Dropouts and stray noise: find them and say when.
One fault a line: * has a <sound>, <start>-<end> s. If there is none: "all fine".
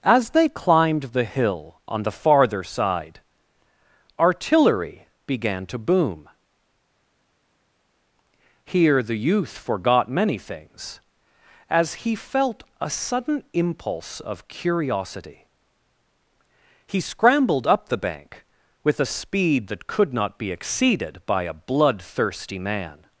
all fine